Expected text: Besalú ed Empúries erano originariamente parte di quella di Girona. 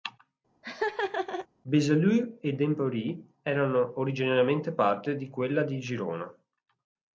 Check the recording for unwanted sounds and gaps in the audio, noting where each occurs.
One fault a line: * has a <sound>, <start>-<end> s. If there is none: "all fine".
* has a laugh, 0.6-1.5 s